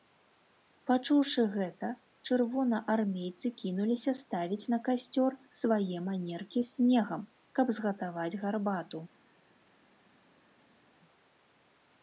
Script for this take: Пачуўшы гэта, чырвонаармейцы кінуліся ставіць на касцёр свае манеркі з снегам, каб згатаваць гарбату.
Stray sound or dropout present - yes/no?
no